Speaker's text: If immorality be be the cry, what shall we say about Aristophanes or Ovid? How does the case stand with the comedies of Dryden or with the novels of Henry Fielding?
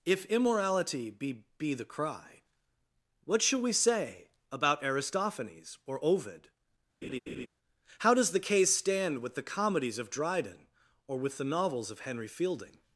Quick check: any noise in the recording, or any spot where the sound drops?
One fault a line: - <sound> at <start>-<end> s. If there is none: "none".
- laugh at 7.0-7.5 s